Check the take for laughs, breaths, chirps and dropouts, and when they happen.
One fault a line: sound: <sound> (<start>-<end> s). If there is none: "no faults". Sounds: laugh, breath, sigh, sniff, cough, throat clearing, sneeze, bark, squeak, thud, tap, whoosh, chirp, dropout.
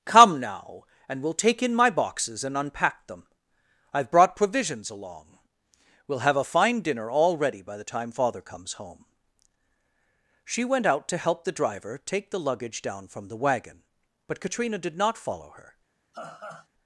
sound: laugh (16.1-16.7 s)